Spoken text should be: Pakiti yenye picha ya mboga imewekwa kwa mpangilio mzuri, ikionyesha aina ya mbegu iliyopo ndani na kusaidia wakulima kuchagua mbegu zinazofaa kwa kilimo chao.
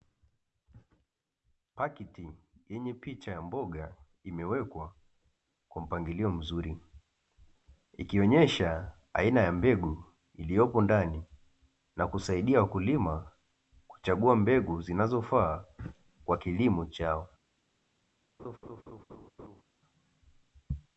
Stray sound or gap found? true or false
true